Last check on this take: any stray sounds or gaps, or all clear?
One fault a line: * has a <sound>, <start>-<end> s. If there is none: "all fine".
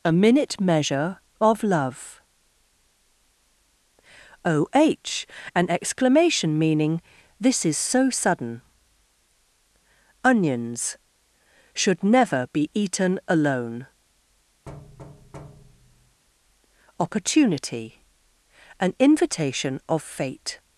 * has a thud, 14.7-16.2 s